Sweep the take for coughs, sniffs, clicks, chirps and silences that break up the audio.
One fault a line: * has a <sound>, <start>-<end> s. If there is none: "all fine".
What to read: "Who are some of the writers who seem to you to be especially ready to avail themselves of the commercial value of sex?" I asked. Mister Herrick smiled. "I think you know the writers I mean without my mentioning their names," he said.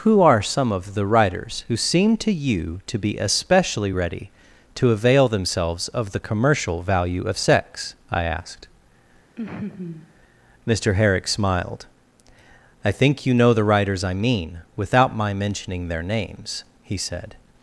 * has a laugh, 9.4-10.1 s